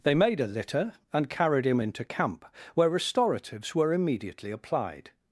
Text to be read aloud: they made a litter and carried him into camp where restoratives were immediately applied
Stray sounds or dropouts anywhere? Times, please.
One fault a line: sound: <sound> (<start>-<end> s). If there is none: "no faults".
no faults